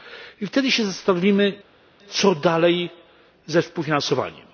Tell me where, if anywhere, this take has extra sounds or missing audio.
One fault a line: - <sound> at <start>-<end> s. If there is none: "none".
none